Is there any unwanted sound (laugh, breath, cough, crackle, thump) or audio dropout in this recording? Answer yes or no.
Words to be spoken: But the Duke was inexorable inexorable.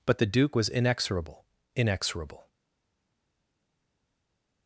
no